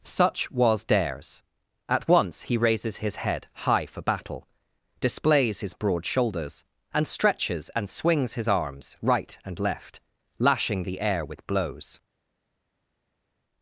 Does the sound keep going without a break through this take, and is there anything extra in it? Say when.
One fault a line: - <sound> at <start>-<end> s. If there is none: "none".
none